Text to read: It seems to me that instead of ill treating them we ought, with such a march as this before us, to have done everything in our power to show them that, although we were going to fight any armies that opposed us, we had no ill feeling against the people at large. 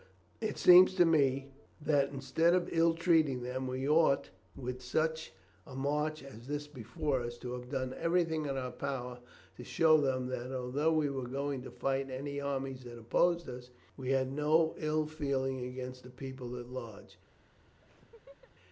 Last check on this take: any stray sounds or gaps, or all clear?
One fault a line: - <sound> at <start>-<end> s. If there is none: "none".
- laugh at 17.8-18.5 s